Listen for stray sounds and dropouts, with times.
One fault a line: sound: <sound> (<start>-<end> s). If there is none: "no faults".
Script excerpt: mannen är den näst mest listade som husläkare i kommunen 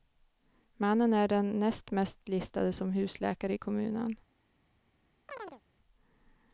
sound: chirp (5.3-5.6 s)